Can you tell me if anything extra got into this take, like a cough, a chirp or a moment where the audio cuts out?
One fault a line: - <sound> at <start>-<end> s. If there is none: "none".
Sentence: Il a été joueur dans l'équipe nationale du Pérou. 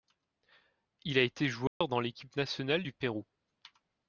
- dropout at 1.7-1.8 s